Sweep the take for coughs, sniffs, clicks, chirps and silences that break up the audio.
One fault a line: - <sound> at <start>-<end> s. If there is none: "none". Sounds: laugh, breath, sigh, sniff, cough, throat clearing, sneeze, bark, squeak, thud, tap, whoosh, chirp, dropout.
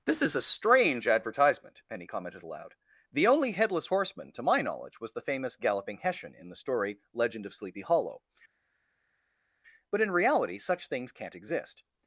none